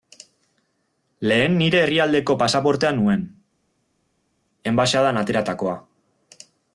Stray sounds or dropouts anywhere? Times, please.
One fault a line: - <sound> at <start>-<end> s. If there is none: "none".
none